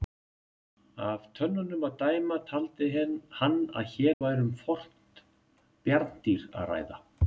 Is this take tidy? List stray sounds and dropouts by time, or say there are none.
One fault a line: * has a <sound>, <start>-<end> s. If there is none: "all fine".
* has a dropout, 4.1-4.2 s